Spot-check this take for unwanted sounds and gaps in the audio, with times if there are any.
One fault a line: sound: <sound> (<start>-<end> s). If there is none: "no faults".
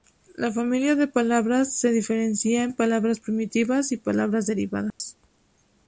sound: dropout (4.9-5.0 s)